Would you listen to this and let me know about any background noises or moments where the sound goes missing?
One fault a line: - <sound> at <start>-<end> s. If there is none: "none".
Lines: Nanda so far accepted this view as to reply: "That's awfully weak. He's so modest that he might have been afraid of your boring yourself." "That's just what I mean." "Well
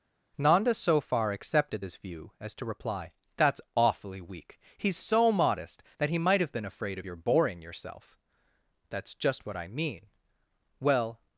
none